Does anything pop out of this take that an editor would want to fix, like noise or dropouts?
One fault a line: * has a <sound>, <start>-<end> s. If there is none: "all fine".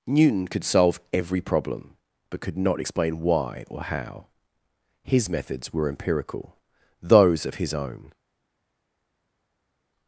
all fine